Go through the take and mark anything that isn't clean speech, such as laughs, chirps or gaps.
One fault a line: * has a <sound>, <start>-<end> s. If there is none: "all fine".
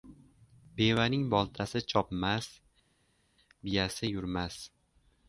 all fine